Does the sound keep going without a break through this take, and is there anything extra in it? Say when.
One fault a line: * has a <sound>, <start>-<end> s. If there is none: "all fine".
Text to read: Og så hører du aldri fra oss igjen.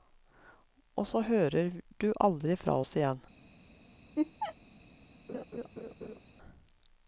* has a laugh, 4.2-4.6 s
* has a laugh, 5.3-6.2 s